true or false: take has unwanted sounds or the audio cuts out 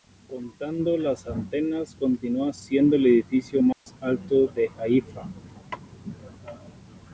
true